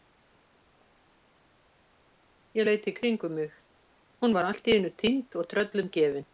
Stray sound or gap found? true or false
false